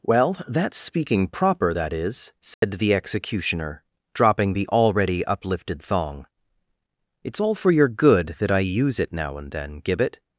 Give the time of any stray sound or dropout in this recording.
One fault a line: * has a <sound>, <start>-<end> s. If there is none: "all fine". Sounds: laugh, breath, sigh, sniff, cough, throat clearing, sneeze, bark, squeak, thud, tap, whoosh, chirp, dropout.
* has a dropout, 2.5-2.6 s